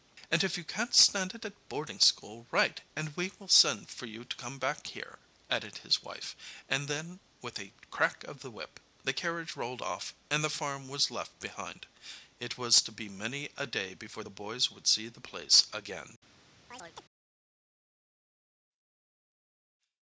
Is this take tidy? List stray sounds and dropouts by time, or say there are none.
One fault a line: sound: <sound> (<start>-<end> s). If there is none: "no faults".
sound: chirp (16.7-17.0 s)